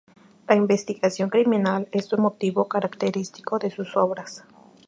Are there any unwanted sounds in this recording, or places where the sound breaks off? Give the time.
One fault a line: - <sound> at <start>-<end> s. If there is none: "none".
none